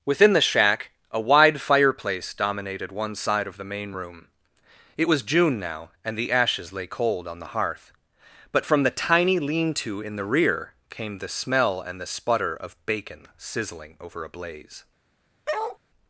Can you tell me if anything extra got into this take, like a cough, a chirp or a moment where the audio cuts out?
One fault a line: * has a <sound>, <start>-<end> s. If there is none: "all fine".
* has a bark, 15.5-15.8 s